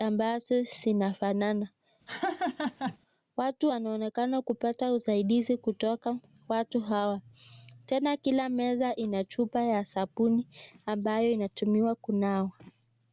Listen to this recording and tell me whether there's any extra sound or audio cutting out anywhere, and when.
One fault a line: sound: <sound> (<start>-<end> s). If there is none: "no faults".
sound: laugh (2.1-3.0 s)